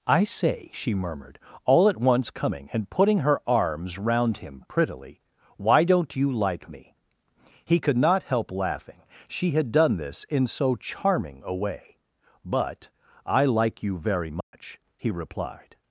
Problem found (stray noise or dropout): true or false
true